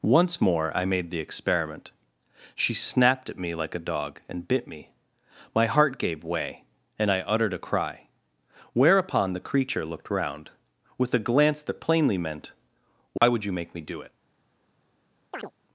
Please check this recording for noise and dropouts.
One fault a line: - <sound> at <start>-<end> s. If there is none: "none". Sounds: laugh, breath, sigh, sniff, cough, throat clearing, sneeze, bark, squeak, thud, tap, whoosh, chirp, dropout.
- dropout at 13.2-13.2 s
- chirp at 15.3-15.5 s